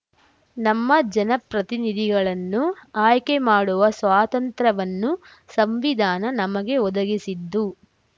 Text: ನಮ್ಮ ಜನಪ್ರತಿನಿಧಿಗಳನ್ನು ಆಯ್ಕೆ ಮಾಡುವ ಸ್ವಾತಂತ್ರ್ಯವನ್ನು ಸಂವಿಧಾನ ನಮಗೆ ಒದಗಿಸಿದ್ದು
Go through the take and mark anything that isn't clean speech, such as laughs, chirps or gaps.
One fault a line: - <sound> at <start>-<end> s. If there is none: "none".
none